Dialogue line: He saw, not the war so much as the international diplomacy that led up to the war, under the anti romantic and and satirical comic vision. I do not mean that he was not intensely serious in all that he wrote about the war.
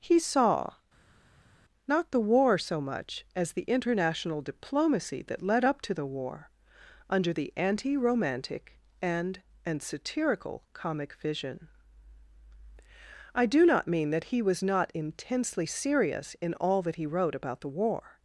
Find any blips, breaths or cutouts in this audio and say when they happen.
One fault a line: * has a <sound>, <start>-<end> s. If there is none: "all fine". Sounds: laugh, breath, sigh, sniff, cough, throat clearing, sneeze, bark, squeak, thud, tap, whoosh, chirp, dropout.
all fine